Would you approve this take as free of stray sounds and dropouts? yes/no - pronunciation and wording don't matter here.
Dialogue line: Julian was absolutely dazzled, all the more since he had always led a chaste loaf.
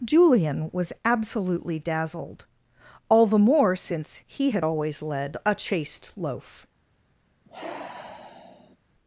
no